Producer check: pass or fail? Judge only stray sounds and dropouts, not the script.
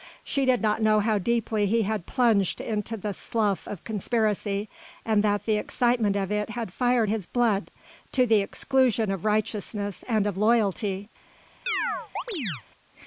fail